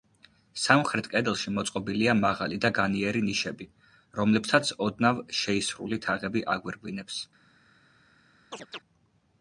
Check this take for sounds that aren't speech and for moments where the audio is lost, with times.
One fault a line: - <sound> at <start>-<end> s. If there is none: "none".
- chirp at 8.5-8.8 s